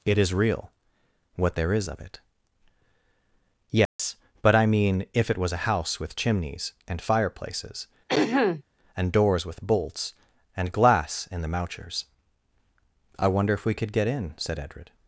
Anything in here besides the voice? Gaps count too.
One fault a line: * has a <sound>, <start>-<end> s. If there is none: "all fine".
* has a dropout, 3.9-4.0 s
* has a throat clearing, 8.1-8.6 s